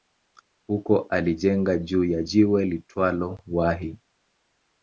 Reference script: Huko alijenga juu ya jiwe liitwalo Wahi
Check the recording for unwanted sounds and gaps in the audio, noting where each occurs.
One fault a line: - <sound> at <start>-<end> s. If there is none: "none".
none